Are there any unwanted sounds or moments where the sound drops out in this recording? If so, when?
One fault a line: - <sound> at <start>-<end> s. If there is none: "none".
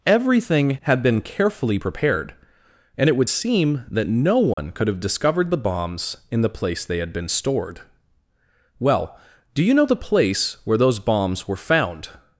- dropout at 4.5-4.6 s